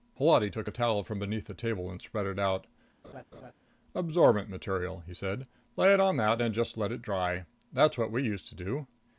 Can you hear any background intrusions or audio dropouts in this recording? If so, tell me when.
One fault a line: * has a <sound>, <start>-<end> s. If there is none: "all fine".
* has a laugh, 3.0-3.5 s